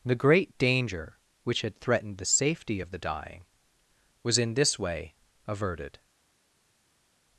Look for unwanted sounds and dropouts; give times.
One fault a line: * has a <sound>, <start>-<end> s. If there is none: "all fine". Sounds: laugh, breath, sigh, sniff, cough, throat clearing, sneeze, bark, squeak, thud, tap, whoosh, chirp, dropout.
all fine